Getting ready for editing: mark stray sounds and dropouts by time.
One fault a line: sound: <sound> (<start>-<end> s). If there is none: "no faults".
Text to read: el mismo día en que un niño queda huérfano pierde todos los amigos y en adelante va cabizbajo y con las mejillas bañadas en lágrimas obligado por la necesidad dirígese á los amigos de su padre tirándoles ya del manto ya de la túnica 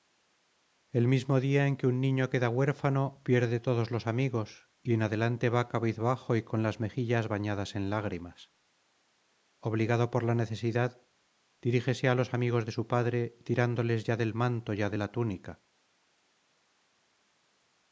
no faults